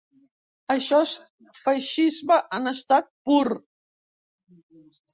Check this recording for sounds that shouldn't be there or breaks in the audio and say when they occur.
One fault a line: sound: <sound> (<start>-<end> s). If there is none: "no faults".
no faults